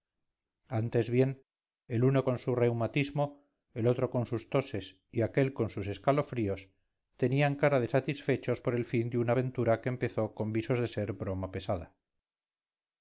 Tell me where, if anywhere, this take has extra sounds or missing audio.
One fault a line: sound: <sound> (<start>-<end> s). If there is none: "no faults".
no faults